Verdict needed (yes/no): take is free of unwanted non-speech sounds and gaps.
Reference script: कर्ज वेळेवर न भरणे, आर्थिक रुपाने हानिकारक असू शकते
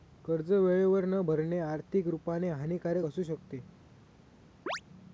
no